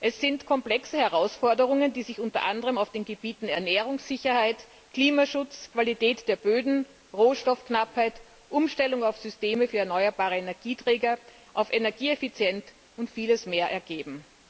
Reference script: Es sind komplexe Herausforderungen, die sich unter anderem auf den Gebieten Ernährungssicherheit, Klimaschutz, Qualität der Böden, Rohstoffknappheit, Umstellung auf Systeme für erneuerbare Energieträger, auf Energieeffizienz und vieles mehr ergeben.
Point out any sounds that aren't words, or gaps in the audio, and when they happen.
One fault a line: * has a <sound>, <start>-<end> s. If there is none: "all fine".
all fine